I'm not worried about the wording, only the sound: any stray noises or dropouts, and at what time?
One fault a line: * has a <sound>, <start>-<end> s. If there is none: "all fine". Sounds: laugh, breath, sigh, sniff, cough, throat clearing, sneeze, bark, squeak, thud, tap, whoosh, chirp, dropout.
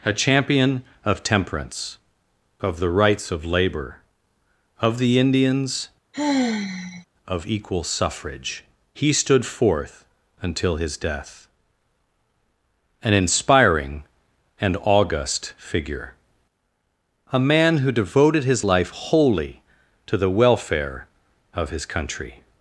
* has a sigh, 6.1-7.1 s